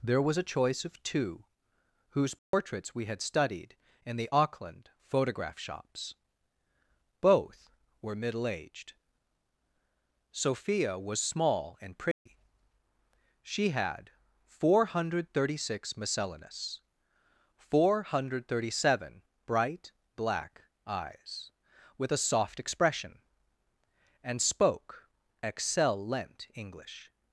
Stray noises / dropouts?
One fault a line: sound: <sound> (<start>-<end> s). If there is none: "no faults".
sound: dropout (2.4-2.5 s)
sound: dropout (12.1-12.3 s)